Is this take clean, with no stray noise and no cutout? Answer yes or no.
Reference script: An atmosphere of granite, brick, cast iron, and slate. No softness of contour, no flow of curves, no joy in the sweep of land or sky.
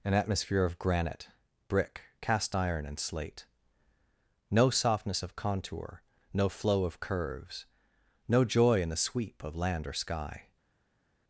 yes